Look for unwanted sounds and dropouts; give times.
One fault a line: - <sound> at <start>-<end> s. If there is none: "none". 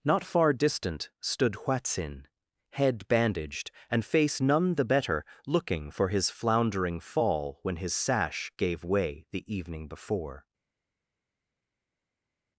none